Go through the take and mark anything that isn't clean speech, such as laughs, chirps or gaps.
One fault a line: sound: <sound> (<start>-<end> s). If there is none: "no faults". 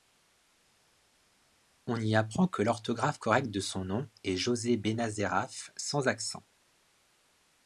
no faults